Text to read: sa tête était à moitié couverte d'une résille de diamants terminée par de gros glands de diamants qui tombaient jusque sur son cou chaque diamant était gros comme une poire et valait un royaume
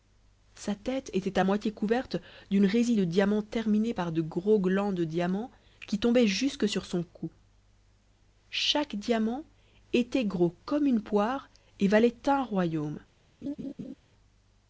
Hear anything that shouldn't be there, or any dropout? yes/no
yes